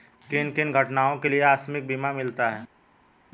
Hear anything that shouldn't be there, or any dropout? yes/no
no